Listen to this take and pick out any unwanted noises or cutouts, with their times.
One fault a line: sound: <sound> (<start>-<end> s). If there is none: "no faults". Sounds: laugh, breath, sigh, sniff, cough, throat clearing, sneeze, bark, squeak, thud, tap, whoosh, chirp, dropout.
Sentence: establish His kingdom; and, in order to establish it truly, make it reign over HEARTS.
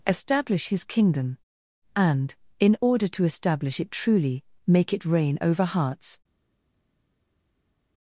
no faults